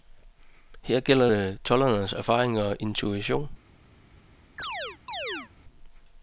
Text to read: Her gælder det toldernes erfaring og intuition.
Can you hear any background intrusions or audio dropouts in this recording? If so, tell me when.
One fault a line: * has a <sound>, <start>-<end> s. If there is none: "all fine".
* has a chirp, 4.6-5.5 s